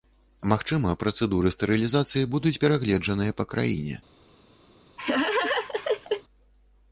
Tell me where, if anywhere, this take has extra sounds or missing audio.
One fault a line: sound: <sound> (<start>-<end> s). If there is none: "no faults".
sound: laugh (5.0-6.2 s)